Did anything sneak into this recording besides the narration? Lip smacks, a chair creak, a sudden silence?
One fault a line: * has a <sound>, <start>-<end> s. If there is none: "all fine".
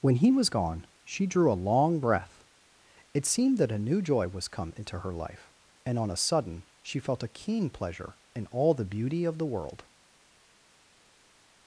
all fine